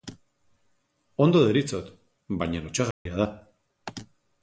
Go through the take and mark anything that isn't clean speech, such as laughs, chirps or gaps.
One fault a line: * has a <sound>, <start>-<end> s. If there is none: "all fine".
* has a dropout, 2.9-3.1 s